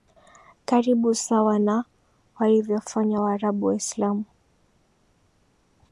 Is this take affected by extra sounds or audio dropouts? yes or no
no